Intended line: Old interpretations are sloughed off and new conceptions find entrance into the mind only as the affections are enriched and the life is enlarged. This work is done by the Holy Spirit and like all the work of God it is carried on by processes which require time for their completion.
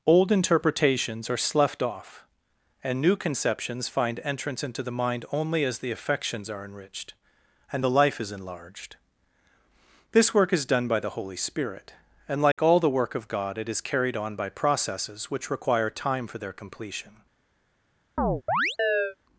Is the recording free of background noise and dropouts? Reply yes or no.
no